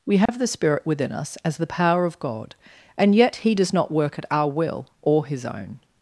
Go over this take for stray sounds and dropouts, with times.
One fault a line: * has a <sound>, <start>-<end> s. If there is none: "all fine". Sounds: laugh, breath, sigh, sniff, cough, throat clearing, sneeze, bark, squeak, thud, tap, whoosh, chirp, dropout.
* has a dropout, 0.3-0.3 s